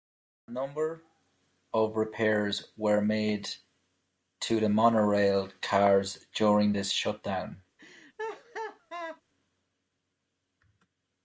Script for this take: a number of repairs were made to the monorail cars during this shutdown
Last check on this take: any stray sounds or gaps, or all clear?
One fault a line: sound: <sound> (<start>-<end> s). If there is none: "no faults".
sound: laugh (7.8-9.2 s)